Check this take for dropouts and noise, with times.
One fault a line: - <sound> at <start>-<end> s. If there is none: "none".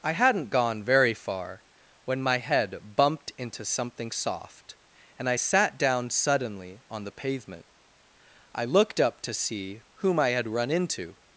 none